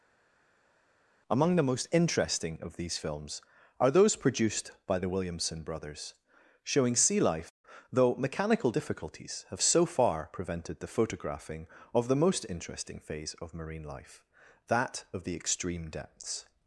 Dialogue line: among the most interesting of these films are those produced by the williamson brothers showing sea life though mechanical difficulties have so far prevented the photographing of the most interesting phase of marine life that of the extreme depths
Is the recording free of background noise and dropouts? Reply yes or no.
yes